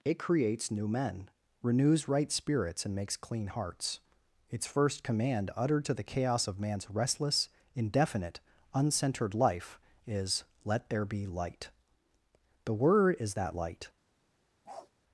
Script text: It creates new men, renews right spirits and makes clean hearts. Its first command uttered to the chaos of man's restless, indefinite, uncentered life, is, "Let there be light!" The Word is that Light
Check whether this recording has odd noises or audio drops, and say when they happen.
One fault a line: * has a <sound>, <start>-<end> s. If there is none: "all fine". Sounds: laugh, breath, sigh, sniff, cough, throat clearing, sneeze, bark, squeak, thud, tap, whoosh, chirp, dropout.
* has a bark, 14.6-14.9 s